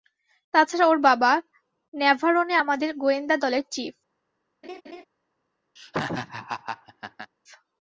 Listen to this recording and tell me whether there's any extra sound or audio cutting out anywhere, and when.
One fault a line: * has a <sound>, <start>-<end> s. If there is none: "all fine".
* has a laugh, 4.6-5.1 s
* has a laugh, 5.8-7.3 s